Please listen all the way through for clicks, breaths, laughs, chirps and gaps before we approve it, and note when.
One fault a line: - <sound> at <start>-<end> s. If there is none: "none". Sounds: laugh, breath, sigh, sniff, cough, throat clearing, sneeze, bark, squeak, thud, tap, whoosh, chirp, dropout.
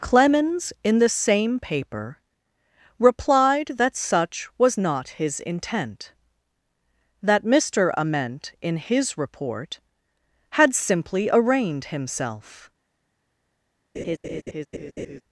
- laugh at 13.9-15.2 s